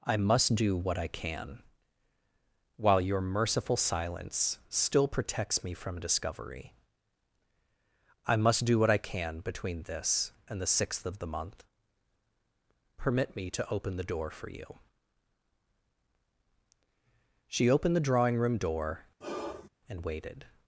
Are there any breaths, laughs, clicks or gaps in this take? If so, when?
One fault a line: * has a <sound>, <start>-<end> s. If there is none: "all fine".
* has a sigh, 19.2-19.7 s